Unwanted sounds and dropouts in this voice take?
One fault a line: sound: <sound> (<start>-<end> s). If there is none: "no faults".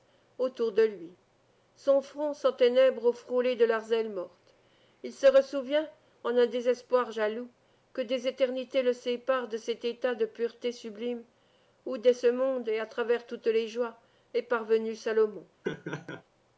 sound: laugh (15.6-16.2 s)